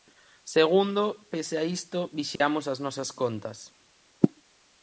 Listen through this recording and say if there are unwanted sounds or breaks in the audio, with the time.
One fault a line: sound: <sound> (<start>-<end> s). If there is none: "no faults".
sound: dropout (2.4-2.4 s)